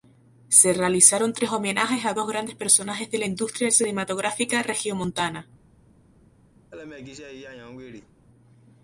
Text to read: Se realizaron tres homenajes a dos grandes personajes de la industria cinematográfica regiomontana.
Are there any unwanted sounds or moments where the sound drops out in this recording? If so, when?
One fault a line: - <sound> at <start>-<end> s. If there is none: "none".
- laugh at 6.7-8.1 s